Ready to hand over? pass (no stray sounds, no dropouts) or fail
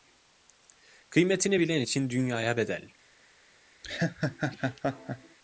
fail